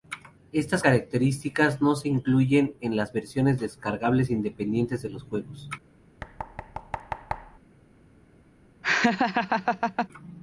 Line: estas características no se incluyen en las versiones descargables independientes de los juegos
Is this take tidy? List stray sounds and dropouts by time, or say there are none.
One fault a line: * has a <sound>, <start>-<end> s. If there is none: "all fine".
* has a thud, 6.2-7.6 s
* has a laugh, 8.8-10.1 s